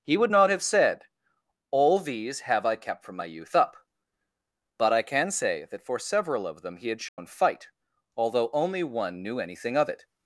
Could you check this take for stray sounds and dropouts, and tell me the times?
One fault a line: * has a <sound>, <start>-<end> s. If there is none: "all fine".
* has a dropout, 7.1-7.2 s